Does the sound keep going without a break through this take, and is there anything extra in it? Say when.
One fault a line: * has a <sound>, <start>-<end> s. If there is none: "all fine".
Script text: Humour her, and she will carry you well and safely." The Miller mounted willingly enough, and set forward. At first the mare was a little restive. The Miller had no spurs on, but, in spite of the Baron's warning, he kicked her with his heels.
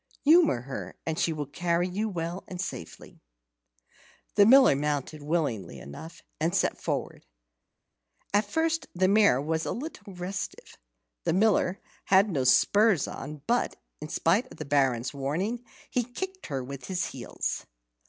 all fine